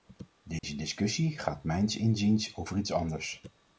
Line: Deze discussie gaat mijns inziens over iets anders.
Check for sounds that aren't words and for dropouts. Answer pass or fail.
fail